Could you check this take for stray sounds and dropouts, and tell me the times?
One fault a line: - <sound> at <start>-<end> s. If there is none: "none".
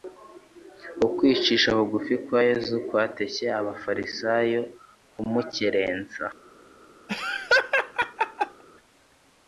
- laugh at 7.1-8.6 s